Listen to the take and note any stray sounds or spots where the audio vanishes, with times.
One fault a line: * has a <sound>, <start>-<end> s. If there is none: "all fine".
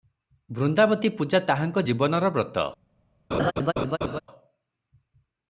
* has a laugh, 3.3-4.2 s